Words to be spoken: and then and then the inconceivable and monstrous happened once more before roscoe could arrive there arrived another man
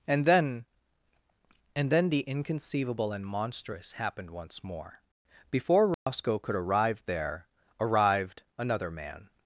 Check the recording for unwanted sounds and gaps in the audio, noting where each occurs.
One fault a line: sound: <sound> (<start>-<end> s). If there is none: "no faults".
sound: dropout (5.9-6.1 s)